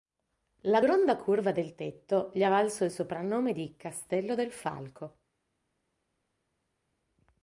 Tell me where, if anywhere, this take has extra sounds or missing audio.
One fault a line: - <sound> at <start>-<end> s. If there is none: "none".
none